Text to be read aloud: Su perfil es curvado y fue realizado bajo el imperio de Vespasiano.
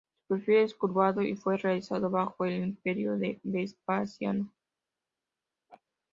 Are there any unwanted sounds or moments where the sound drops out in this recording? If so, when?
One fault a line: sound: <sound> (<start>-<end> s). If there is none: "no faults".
sound: laugh (5.7-5.8 s)